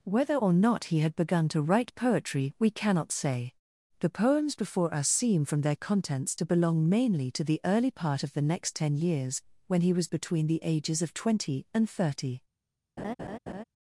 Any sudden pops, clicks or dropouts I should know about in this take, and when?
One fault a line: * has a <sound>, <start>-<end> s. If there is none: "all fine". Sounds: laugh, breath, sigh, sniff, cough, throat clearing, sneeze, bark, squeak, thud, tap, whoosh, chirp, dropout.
* has a laugh, 13.0-13.6 s